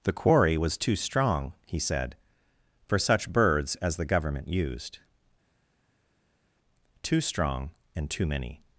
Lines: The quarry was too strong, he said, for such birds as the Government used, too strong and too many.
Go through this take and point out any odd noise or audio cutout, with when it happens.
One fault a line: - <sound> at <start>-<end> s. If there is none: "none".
none